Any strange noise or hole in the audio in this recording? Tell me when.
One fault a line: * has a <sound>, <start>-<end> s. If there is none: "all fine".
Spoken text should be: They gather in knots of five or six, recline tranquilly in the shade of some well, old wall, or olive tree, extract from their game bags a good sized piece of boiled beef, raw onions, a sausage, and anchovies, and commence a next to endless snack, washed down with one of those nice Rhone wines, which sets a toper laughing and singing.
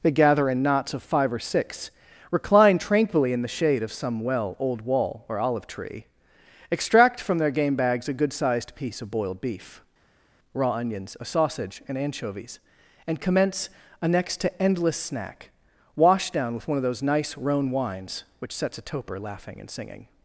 all fine